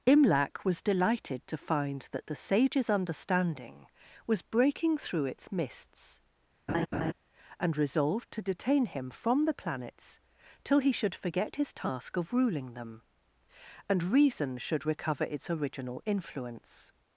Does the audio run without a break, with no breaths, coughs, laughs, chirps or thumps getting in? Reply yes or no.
no